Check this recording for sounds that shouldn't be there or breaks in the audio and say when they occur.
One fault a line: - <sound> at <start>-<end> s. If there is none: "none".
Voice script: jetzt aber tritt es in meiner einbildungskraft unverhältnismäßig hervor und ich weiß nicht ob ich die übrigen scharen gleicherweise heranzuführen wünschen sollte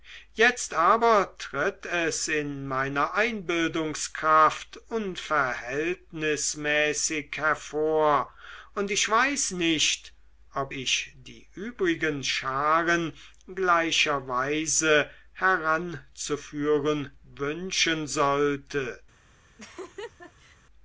- laugh at 19.6-20.6 s